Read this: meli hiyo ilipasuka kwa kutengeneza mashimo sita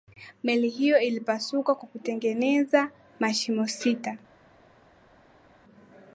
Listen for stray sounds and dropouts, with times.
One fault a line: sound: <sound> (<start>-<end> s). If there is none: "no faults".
no faults